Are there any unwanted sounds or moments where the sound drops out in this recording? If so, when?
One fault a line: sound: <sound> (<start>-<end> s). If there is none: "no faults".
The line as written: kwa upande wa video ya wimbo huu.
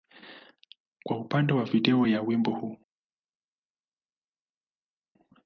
no faults